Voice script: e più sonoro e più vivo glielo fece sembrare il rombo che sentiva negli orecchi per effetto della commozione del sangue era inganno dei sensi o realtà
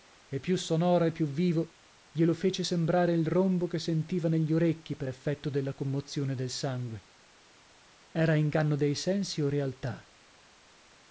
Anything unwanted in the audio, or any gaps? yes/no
no